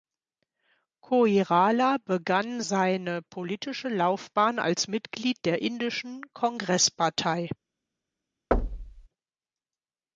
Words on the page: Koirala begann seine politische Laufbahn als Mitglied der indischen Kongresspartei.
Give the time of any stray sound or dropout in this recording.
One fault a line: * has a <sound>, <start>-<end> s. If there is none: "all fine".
* has a thud, 8.5-9.1 s